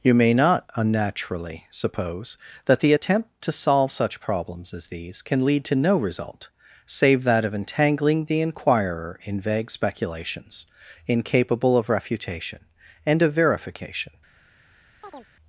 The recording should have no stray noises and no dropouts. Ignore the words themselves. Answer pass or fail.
fail